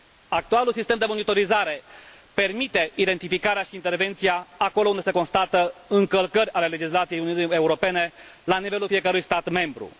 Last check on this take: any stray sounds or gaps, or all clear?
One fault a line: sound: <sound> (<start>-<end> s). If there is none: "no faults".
no faults